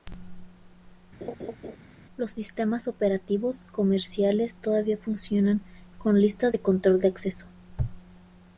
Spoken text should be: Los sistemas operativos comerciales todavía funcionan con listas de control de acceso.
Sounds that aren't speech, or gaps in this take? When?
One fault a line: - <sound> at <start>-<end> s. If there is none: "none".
- laugh at 1.2-1.8 s